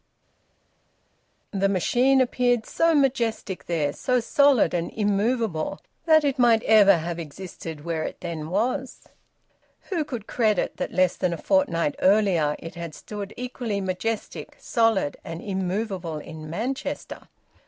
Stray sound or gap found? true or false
false